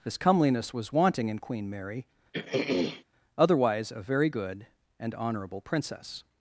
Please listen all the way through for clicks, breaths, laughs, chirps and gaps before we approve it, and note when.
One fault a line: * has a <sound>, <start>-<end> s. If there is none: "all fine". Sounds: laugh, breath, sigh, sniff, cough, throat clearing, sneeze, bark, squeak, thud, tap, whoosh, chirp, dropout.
* has a throat clearing, 2.3-3.0 s